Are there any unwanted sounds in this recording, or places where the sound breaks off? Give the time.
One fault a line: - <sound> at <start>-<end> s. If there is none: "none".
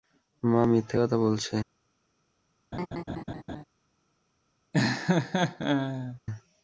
- laugh at 2.7-3.6 s
- laugh at 4.7-6.2 s